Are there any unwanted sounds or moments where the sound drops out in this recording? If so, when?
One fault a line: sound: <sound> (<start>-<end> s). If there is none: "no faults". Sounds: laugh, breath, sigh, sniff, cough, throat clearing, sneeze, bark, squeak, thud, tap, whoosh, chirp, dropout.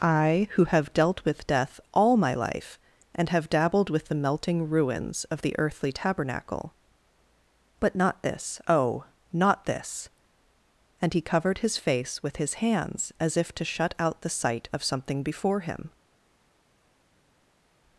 no faults